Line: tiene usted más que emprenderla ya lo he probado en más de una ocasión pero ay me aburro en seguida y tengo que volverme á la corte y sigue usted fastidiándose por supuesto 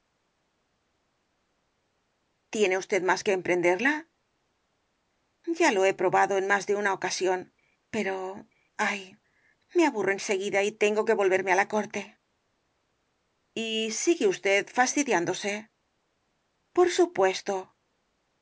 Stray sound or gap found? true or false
false